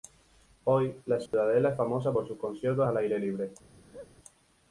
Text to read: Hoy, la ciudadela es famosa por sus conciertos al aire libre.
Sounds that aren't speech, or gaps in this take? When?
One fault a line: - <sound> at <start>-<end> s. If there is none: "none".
- dropout at 1.3-1.3 s
- laugh at 3.8-4.1 s